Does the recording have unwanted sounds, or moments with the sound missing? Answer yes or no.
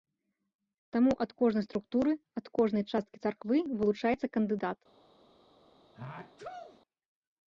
yes